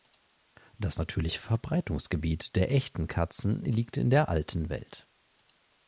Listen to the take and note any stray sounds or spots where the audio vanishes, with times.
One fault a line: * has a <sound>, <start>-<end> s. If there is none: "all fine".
all fine